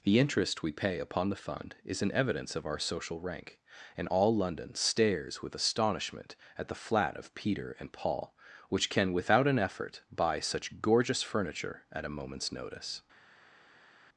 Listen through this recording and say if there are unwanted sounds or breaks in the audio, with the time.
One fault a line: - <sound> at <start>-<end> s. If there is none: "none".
none